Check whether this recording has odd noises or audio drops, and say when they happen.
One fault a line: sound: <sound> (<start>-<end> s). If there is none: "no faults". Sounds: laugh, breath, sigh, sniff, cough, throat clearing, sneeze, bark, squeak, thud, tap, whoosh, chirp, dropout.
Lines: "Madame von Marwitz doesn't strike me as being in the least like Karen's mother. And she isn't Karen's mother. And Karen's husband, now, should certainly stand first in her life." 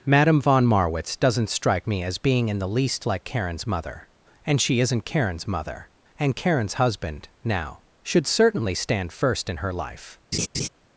sound: laugh (10.3-10.7 s)